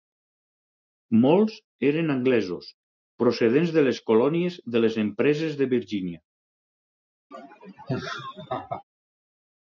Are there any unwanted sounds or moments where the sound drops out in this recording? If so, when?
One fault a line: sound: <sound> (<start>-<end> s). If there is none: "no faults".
sound: laugh (7.3-8.8 s)